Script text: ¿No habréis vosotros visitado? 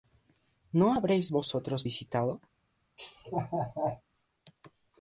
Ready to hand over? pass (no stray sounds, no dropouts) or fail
fail